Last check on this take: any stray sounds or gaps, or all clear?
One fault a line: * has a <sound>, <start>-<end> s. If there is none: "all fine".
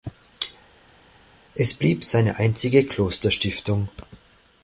all fine